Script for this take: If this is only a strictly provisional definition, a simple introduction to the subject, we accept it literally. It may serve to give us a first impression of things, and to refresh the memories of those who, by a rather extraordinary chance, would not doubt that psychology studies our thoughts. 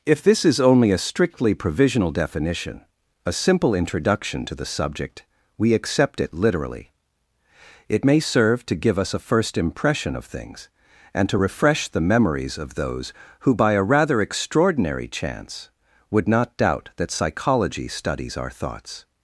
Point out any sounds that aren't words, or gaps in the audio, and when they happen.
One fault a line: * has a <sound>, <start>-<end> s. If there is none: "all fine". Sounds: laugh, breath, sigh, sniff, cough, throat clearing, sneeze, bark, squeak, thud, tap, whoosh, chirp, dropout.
all fine